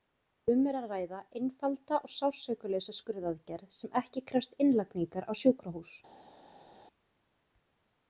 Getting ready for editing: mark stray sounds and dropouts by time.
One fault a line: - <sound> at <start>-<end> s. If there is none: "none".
none